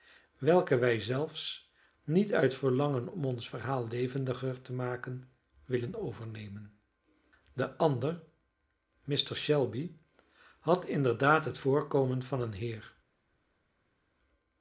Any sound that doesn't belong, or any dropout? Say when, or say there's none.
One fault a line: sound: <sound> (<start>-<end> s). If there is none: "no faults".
no faults